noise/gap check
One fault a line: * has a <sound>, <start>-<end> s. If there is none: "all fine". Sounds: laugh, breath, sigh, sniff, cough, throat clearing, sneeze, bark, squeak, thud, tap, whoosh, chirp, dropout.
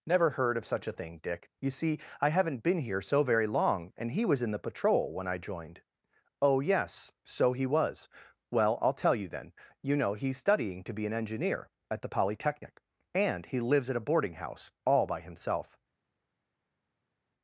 all fine